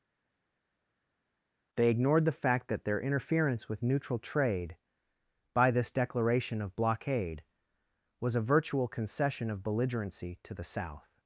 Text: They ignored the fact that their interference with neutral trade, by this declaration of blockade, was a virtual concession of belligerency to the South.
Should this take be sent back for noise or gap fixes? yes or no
no